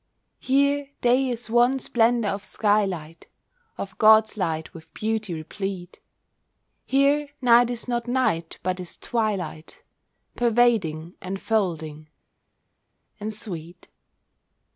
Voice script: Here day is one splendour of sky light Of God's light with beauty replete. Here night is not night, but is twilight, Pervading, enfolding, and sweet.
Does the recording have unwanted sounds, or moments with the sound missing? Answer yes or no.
no